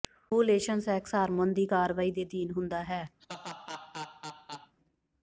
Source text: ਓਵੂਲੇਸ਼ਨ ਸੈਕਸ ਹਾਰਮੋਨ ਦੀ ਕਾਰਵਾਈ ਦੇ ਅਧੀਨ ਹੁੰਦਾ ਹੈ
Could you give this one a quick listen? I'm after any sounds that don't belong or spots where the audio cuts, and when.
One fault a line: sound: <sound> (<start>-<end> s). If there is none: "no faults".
sound: laugh (3.2-4.7 s)